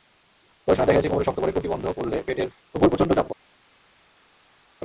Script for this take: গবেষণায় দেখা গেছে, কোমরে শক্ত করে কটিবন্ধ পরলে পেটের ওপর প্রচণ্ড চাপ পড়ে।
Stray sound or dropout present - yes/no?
no